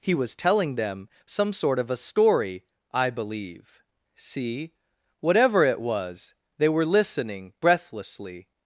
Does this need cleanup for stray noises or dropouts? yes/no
no